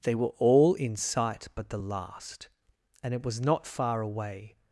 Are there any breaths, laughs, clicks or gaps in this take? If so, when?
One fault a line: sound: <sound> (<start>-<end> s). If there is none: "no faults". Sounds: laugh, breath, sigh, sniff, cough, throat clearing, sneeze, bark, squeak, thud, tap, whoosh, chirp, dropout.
no faults